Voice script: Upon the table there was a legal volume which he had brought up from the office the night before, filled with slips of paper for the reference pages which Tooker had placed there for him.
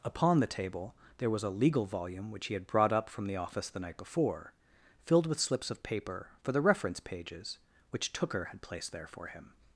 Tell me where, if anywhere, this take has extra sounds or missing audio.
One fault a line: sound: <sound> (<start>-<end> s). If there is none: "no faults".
no faults